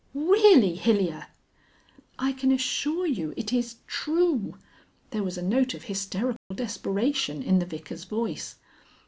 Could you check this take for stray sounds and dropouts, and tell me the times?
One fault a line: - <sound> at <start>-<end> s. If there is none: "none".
- dropout at 6.4-6.5 s